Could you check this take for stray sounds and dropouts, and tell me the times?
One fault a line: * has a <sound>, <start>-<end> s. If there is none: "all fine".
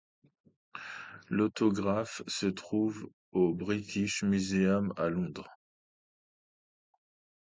all fine